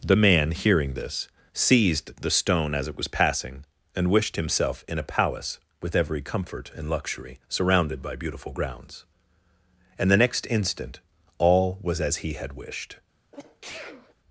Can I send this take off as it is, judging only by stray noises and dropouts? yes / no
no